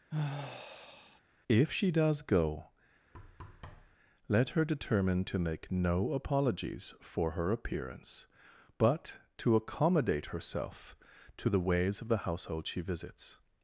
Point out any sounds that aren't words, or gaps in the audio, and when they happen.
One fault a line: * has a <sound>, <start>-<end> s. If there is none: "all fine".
* has a sigh, 0.1-1.2 s
* has a thud, 3.1-4.0 s